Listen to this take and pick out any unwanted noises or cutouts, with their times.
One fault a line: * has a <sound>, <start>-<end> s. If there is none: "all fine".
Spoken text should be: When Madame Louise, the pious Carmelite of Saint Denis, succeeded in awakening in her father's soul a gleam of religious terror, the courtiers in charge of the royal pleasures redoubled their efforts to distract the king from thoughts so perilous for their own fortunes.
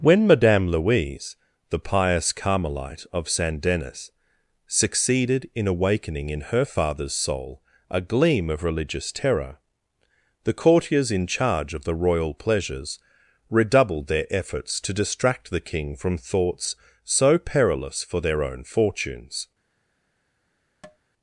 * has a tap, 20.8-21.0 s